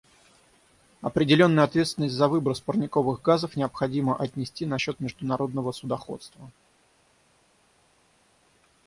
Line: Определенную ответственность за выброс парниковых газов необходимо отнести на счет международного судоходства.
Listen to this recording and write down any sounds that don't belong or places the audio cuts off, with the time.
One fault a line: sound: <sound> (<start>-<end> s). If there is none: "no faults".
no faults